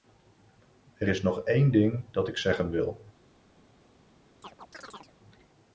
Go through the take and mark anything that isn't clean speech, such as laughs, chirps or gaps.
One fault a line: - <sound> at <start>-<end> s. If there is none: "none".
- chirp at 4.4-5.1 s